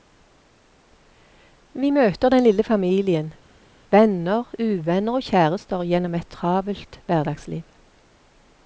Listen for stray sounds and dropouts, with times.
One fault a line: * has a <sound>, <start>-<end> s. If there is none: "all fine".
all fine